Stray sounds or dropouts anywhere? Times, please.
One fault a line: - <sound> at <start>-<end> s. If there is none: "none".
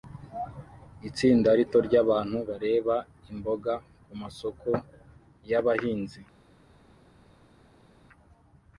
none